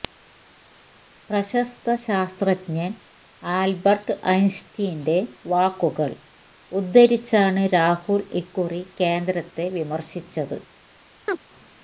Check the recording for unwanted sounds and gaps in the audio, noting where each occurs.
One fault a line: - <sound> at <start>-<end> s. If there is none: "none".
- chirp at 11.3-11.4 s